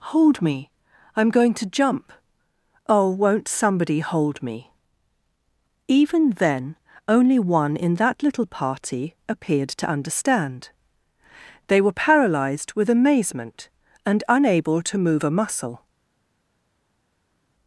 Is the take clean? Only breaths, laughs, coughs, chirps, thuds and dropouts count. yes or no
yes